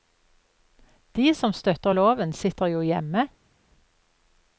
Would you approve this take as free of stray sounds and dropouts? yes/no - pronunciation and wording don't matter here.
yes